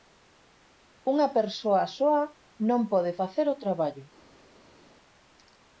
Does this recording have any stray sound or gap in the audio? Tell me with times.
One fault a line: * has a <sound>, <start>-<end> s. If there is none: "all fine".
all fine